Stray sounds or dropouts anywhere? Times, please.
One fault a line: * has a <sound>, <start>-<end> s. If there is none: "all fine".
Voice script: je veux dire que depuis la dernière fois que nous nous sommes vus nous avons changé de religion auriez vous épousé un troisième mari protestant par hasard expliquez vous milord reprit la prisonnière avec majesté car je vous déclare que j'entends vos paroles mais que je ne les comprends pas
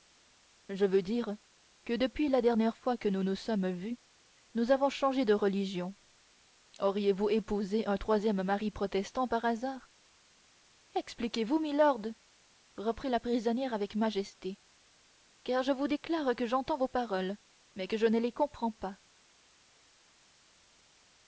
all fine